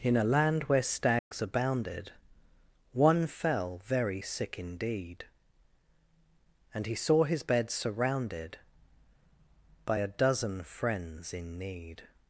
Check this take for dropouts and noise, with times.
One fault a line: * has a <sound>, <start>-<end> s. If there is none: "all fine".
* has a dropout, 1.2-1.3 s